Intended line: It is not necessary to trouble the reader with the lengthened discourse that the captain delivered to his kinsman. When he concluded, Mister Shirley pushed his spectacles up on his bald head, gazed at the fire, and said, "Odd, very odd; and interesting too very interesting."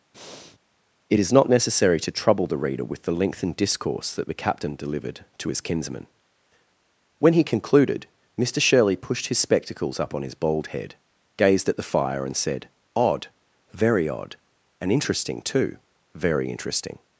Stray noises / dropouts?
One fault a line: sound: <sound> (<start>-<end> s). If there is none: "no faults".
sound: breath (0.1-0.6 s)